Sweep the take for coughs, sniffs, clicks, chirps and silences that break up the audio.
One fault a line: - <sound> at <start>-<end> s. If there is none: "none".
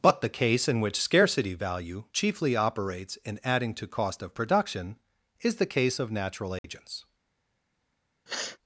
- dropout at 6.6-6.6 s
- sniff at 8.3-8.6 s